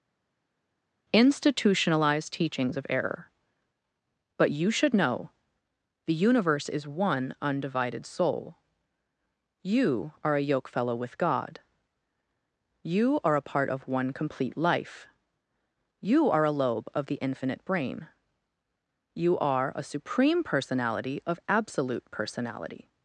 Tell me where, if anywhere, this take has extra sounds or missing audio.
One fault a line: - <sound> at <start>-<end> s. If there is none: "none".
none